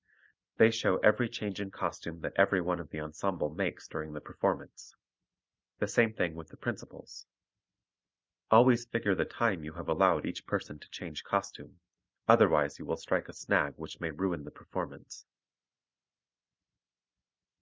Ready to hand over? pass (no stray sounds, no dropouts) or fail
pass